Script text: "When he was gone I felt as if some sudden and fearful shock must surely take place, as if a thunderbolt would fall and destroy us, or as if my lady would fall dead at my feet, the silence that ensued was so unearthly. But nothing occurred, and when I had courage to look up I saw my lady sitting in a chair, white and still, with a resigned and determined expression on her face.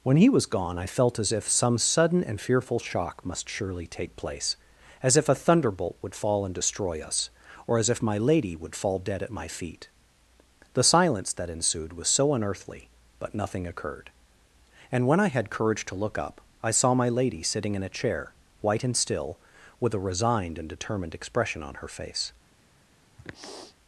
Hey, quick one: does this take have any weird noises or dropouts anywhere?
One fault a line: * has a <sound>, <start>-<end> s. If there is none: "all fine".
* has a sniff, 23.2-23.8 s